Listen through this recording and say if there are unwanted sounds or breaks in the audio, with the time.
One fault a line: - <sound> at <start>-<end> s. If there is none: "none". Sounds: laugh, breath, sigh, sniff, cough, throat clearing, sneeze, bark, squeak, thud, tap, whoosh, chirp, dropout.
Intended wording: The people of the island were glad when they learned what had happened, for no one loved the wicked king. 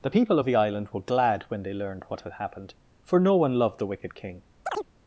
- chirp at 4.7-4.9 s